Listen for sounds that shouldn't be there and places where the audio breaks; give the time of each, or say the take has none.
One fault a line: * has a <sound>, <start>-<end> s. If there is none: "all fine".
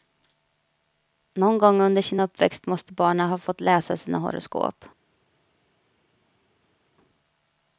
all fine